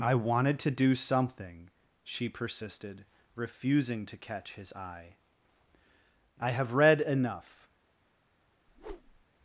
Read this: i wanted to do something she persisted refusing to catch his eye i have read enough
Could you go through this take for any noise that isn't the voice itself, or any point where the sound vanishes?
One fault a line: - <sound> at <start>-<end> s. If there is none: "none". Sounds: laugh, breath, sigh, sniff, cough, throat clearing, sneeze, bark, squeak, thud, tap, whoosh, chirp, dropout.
- whoosh at 8.7-9.2 s